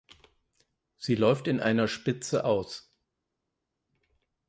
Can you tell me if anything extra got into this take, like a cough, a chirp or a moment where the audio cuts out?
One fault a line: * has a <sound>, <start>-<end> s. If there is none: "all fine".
all fine